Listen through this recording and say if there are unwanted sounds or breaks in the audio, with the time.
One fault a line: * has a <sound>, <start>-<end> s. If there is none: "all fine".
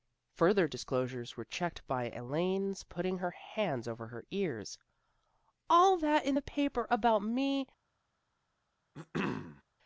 * has a throat clearing, 8.9-9.6 s